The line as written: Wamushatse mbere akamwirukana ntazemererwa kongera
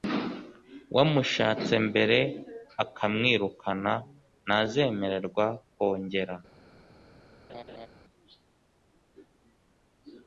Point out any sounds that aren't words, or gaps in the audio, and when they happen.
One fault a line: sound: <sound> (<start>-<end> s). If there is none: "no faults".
sound: laugh (7.5-7.9 s)